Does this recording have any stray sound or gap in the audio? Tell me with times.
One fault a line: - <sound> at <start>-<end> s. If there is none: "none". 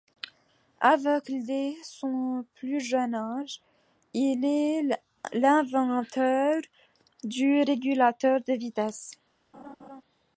- laugh at 9.5-10.0 s